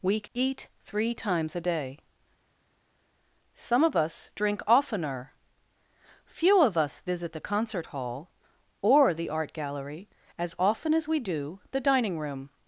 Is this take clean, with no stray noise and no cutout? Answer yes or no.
yes